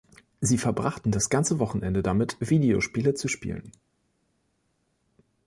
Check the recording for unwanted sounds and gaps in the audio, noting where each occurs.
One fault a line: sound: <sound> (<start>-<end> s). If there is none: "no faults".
no faults